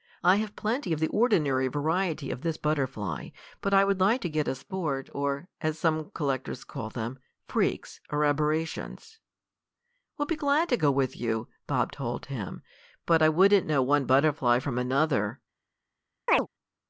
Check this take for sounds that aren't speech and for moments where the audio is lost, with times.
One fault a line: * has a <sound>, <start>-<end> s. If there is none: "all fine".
* has a chirp, 16.3-16.5 s